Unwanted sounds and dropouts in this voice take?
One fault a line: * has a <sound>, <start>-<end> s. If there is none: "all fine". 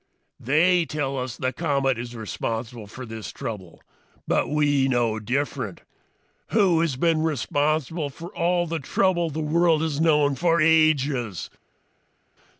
all fine